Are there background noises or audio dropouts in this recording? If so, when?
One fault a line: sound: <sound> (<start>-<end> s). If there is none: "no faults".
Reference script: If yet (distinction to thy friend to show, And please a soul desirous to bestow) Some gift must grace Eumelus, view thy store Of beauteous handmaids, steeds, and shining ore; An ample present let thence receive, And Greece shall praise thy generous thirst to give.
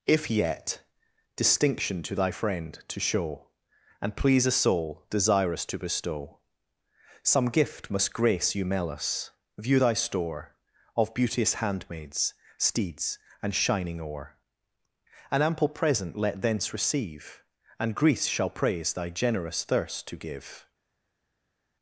no faults